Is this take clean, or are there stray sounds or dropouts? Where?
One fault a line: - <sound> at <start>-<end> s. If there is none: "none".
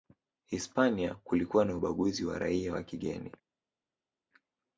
none